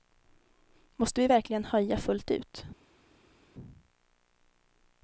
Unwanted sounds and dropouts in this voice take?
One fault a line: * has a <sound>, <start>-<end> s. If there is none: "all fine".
all fine